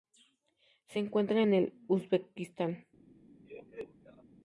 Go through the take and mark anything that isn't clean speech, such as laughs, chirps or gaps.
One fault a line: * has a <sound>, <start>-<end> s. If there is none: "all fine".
* has a laugh, 3.4-4.2 s